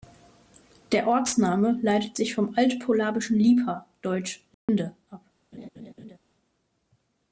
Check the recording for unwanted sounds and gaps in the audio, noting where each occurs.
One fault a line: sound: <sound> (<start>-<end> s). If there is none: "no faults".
sound: dropout (4.5-4.7 s)
sound: laugh (5.5-6.2 s)